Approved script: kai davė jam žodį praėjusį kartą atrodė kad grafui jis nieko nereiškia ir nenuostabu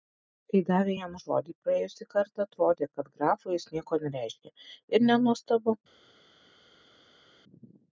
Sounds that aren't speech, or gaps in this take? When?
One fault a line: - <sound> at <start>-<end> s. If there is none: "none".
none